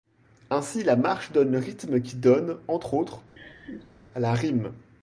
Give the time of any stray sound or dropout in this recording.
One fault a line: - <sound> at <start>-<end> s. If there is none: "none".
- laugh at 3.4-3.9 s